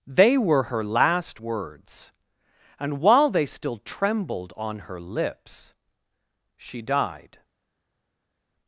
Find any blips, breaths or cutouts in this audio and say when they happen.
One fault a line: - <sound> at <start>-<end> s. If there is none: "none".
none